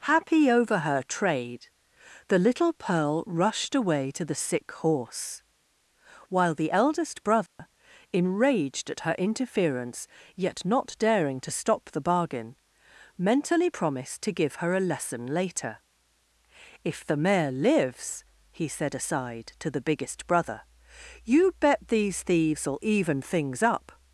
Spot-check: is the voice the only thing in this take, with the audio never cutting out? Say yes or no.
no